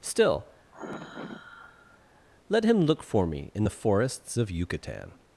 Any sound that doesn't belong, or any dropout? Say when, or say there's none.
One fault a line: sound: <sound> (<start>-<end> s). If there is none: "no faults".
sound: sigh (0.7-2.2 s)